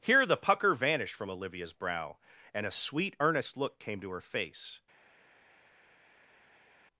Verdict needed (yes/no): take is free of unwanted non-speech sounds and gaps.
yes